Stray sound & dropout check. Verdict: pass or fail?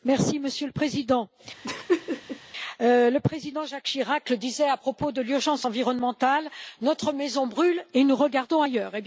fail